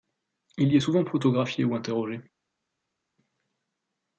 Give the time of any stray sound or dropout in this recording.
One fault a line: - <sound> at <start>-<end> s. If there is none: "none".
none